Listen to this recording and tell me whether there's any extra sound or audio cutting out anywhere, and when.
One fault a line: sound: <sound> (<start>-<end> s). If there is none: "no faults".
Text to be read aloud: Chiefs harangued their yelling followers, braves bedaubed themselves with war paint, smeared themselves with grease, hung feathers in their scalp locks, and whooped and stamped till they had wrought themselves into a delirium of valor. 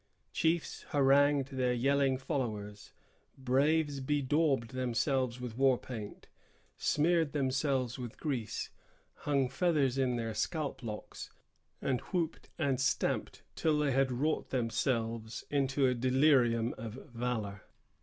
no faults